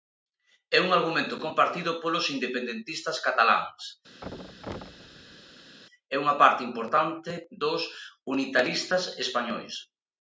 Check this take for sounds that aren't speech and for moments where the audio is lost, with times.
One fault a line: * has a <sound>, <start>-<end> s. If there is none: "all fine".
* has a thud, 4.2-5.8 s